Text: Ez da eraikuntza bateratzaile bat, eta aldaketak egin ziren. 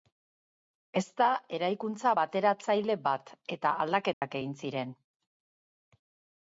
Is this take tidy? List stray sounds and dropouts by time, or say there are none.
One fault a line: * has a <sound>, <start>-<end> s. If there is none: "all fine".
* has a dropout, 4.1-4.2 s